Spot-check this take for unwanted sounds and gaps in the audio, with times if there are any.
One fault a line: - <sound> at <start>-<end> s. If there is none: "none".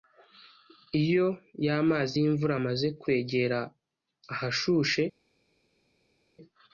none